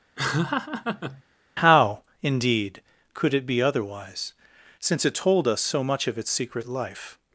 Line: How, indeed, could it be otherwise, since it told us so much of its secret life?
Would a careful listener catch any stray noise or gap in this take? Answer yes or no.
yes